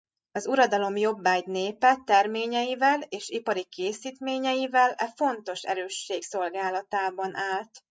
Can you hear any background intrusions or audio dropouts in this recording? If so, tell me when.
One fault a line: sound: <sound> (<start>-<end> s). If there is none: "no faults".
no faults